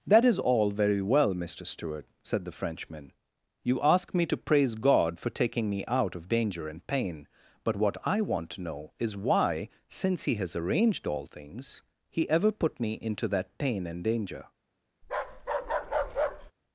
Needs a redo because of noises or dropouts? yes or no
yes